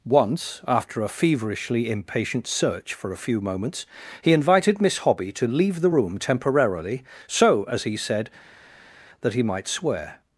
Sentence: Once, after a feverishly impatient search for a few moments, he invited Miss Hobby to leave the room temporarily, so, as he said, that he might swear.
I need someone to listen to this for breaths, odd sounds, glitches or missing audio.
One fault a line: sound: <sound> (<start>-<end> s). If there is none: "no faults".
no faults